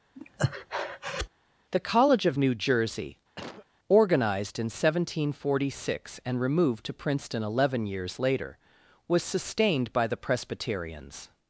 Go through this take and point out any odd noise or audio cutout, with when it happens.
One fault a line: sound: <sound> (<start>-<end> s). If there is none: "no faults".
sound: breath (0.1-1.3 s)
sound: cough (3.4-3.7 s)